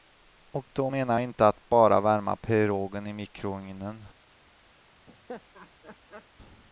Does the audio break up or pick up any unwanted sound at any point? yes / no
yes